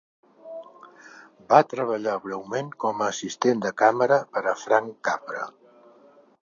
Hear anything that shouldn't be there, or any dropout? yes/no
no